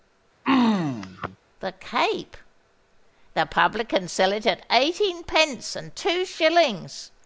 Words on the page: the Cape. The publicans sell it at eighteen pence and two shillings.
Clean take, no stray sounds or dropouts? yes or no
no